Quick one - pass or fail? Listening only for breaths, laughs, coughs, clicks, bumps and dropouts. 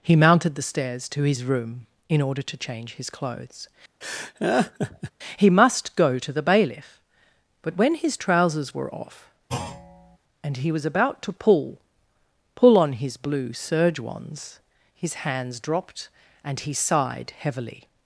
fail